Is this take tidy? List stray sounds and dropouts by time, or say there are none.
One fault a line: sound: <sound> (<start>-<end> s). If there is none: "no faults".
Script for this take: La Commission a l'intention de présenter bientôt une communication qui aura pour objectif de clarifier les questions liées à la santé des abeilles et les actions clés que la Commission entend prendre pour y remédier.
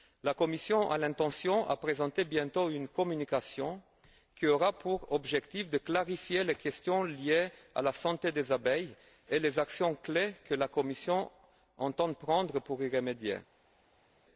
no faults